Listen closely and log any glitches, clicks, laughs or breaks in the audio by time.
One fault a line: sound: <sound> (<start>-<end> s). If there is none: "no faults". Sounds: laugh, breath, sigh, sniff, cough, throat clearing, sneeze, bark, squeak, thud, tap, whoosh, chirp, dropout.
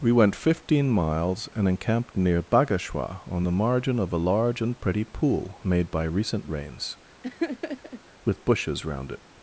sound: laugh (7.2-8.0 s)